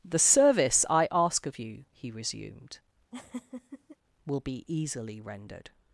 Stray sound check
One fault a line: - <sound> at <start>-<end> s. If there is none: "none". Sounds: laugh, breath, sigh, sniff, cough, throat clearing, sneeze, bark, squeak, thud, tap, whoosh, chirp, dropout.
- laugh at 3.1-4.0 s